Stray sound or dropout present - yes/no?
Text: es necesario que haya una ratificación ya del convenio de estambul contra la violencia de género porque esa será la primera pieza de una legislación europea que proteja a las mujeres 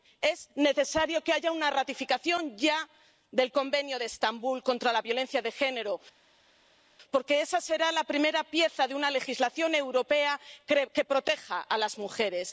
no